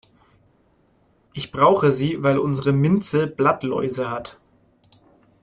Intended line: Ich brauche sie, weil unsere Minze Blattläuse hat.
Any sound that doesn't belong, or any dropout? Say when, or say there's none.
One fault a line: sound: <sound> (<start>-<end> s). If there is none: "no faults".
no faults